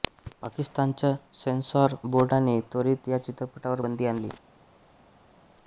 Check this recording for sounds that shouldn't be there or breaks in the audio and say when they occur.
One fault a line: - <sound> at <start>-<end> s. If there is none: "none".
none